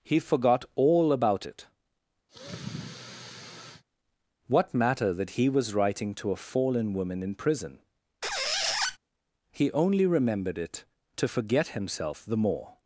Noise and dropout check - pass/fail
fail